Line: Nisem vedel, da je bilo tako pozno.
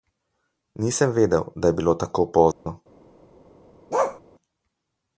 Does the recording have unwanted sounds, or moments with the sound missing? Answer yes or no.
yes